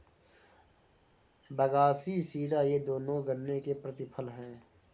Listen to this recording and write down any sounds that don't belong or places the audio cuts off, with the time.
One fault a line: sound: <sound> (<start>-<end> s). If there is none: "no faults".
no faults